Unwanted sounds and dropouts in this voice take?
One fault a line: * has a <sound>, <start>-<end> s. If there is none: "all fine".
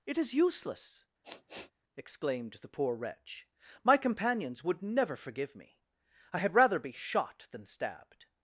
* has a sniff, 1.2-1.7 s